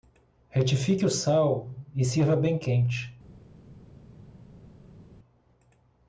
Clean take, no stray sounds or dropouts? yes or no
yes